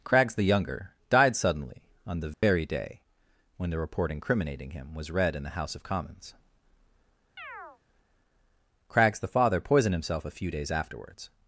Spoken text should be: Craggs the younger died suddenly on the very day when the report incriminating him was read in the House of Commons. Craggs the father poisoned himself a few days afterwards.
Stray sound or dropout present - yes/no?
yes